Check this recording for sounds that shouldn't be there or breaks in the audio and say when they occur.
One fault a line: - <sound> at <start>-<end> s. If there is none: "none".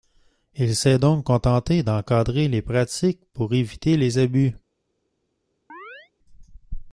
- chirp at 5.7-6.1 s